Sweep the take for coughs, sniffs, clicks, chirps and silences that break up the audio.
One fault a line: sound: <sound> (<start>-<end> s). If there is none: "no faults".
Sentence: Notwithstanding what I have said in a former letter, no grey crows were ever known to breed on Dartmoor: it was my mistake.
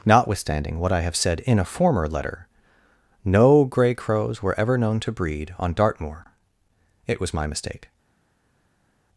no faults